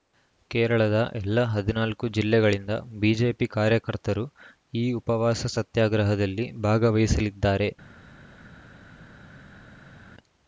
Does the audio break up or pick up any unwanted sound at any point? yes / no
no